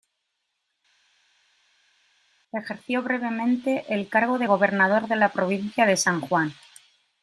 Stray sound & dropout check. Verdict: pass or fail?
pass